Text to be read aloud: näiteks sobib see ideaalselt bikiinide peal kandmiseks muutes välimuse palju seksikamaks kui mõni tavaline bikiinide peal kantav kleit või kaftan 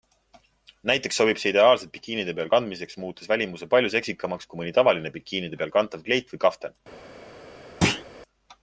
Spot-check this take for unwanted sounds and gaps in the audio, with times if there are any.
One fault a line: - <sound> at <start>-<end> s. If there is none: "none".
- thud at 7.8-8.0 s